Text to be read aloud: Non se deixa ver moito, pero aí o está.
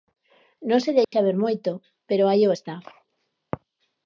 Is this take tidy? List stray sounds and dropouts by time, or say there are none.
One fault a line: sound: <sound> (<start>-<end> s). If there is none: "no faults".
sound: dropout (1.0-1.1 s)